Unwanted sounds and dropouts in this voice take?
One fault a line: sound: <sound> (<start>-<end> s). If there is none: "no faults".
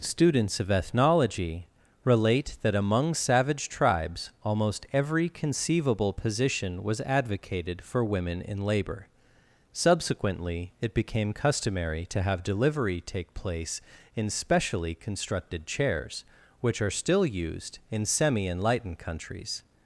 no faults